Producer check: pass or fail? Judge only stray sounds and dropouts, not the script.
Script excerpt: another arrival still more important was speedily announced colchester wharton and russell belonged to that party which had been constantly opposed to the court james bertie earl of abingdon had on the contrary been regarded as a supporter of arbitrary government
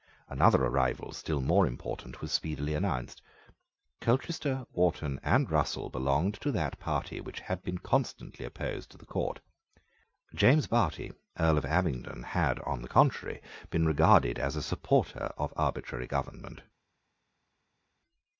pass